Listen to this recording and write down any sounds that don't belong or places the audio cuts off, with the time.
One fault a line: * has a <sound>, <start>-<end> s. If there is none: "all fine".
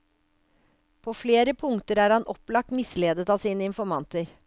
all fine